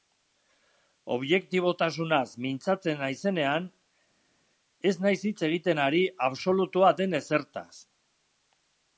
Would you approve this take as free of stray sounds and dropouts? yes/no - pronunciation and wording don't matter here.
yes